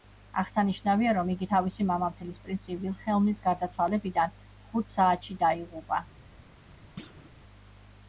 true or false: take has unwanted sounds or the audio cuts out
true